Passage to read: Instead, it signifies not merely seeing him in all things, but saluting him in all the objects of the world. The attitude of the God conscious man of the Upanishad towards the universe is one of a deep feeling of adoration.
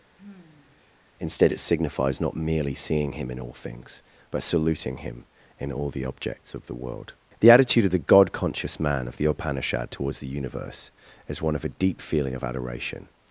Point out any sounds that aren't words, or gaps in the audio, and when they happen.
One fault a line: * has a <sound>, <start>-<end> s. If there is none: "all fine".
* has a sigh, 0.2-0.9 s